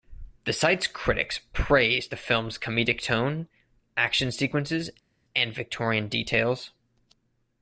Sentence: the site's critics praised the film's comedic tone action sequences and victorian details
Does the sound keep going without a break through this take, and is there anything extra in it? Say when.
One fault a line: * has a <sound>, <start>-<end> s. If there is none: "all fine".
all fine